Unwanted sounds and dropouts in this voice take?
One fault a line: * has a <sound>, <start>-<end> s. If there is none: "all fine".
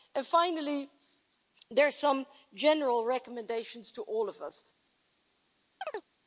* has a chirp, 5.8-6.1 s